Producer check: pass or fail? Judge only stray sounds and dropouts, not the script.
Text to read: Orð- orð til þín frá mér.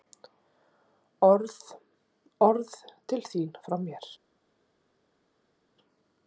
pass